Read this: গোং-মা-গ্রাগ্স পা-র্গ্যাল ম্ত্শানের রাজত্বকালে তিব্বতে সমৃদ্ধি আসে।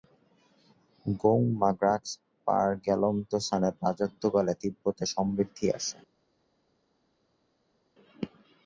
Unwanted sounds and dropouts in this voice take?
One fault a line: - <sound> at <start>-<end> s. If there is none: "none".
none